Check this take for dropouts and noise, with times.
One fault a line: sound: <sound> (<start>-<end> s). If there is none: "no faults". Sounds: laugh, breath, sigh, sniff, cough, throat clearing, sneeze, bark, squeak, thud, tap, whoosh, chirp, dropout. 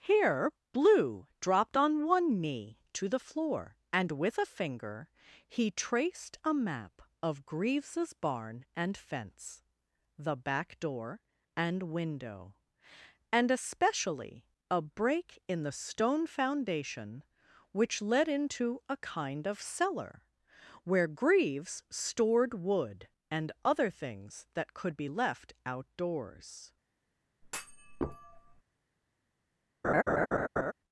sound: thud (27.4-28.6 s)
sound: laugh (29.8-30.7 s)